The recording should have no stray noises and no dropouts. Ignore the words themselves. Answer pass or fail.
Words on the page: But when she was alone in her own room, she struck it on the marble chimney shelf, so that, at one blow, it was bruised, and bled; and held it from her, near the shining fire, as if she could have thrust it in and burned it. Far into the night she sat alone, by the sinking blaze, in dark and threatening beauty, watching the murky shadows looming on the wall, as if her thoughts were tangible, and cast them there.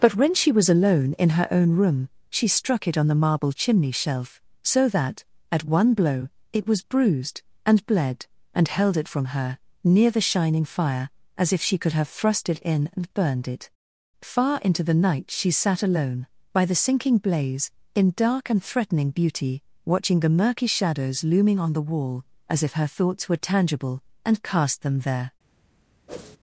fail